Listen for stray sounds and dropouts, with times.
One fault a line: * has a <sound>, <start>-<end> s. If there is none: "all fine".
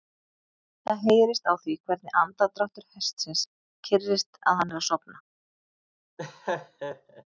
* has a laugh, 6.2-7.2 s